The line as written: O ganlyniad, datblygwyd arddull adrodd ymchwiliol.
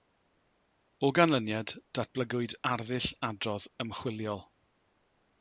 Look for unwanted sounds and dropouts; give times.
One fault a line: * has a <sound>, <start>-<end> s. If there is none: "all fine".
all fine